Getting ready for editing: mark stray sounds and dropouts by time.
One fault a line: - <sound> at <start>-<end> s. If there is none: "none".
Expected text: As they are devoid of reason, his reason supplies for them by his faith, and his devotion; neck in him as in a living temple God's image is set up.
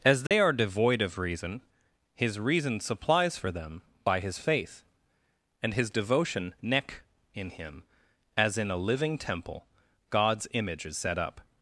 - dropout at 0.3-0.3 s